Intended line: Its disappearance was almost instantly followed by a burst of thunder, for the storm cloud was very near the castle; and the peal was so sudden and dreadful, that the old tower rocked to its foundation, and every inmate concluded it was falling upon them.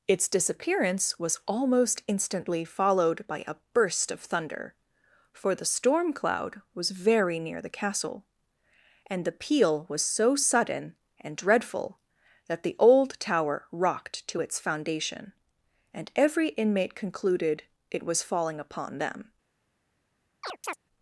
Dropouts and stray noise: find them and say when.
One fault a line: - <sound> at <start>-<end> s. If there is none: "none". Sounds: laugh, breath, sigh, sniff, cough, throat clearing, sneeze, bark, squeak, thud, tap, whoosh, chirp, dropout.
- chirp at 20.4-20.8 s